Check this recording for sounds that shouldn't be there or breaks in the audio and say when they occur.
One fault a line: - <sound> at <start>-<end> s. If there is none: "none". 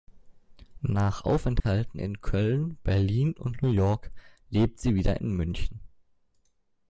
- dropout at 1.6-1.6 s